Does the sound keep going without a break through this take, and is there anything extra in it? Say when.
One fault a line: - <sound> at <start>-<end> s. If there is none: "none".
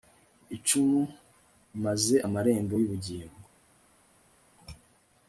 none